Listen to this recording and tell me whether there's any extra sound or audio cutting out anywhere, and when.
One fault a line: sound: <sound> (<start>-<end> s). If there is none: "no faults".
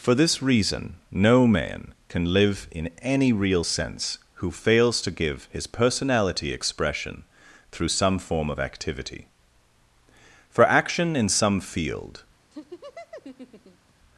sound: laugh (12.5-13.9 s)